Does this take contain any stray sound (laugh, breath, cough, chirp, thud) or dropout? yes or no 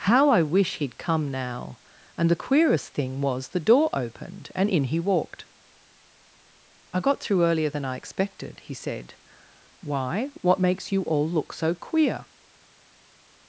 no